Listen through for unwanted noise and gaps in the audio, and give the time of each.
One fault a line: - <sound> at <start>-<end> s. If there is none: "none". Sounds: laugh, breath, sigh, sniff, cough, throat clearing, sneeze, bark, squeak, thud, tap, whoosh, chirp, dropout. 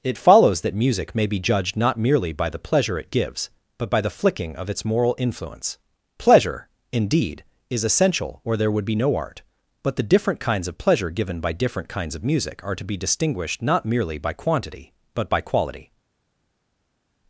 none